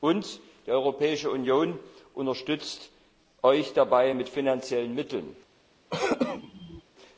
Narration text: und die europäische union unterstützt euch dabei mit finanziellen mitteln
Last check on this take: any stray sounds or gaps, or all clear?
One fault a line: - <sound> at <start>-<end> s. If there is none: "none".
- throat clearing at 5.9-6.8 s